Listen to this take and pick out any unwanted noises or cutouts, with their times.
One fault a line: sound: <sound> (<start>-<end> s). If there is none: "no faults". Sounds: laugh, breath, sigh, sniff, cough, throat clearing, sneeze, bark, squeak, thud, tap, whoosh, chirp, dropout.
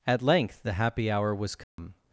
sound: dropout (1.6-1.8 s)